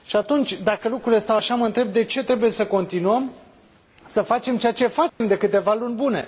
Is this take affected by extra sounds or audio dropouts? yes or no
yes